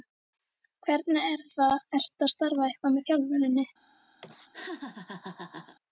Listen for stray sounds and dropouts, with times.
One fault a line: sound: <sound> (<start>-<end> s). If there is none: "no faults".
sound: laugh (4.2-5.8 s)